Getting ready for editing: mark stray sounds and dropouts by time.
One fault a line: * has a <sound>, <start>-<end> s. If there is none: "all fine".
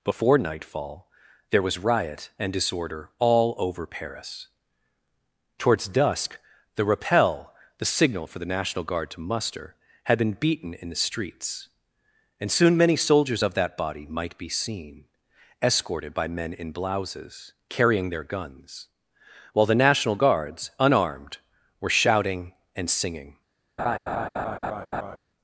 * has a laugh, 23.8-25.2 s